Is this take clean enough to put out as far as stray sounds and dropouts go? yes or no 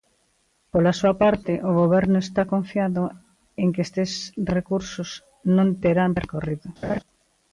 no